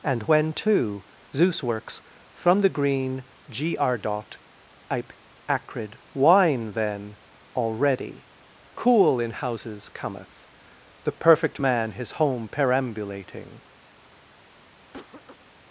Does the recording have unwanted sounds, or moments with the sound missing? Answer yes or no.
yes